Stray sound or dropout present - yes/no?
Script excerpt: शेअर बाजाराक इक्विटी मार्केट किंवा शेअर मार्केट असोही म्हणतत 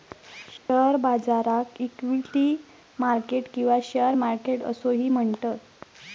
yes